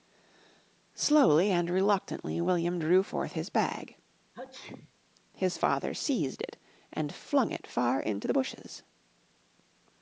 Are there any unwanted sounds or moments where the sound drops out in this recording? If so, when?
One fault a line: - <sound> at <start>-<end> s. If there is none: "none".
- sneeze at 4.3-4.9 s